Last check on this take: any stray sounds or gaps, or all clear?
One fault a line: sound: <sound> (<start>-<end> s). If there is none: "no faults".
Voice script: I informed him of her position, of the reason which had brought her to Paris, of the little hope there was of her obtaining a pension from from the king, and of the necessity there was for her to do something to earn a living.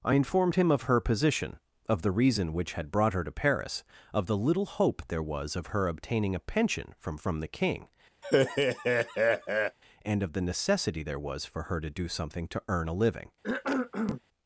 sound: laugh (8.2-9.8 s)
sound: cough (13.4-14.2 s)